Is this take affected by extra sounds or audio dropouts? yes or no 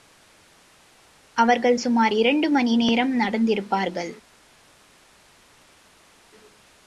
no